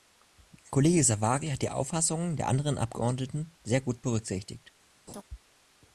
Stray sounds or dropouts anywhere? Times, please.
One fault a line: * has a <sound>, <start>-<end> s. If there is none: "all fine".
* has a laugh, 5.1-5.2 s